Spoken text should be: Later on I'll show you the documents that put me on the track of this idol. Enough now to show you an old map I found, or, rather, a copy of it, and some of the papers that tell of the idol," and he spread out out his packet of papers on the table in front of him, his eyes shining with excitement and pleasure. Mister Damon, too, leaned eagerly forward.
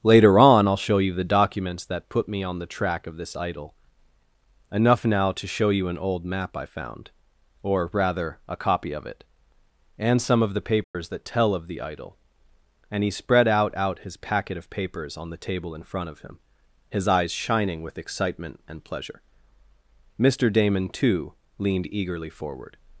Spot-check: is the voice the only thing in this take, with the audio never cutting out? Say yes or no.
no